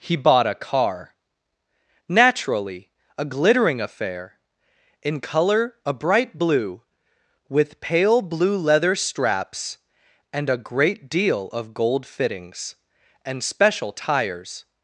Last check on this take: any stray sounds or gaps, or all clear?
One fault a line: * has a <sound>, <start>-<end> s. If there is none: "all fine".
all fine